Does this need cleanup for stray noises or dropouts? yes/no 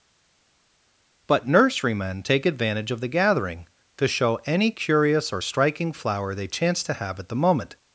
no